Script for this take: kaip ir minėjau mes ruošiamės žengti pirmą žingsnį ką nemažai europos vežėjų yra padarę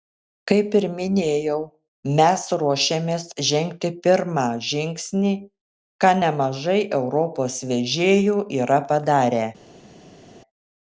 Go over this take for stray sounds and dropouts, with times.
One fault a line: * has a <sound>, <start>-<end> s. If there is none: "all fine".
all fine